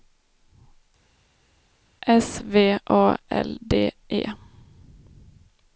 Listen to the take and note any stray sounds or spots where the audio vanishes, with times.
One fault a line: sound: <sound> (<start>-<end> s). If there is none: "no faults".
no faults